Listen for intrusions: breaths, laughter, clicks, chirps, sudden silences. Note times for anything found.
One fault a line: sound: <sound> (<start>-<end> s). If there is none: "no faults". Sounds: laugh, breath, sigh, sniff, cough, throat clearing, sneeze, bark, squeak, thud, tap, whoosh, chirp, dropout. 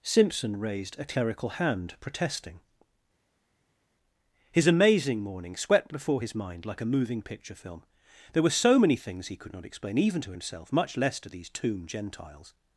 no faults